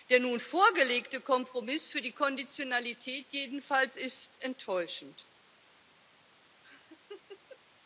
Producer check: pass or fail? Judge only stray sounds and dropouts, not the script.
fail